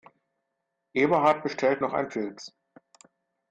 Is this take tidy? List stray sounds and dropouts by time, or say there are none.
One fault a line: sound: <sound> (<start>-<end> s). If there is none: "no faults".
no faults